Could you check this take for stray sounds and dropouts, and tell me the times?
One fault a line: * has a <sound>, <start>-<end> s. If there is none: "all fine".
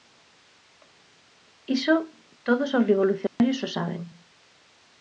* has a dropout, 3.3-3.4 s